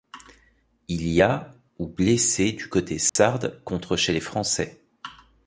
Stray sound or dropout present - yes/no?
yes